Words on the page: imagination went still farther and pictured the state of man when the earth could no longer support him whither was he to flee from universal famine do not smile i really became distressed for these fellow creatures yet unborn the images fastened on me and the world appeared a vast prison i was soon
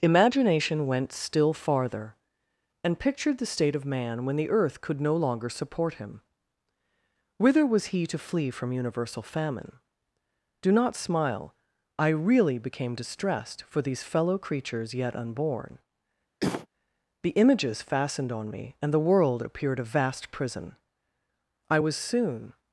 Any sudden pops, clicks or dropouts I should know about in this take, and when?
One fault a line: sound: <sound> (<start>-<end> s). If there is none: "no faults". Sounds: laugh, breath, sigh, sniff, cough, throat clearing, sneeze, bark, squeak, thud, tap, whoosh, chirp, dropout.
sound: cough (16.4-16.7 s)